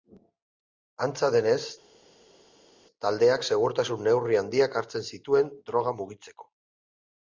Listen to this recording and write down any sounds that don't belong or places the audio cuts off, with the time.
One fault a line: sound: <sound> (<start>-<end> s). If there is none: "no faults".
no faults